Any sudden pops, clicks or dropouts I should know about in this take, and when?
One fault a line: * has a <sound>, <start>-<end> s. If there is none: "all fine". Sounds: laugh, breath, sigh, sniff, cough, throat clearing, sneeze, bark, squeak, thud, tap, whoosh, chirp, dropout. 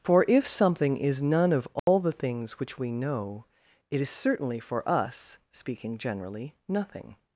* has a dropout, 1.8-1.9 s